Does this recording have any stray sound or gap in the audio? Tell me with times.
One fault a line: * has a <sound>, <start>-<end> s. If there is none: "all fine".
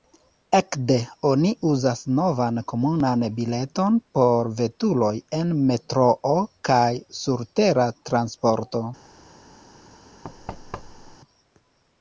* has a thud, 10.2-11.2 s